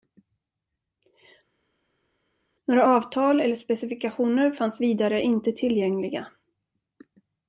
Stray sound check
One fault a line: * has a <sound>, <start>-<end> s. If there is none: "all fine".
all fine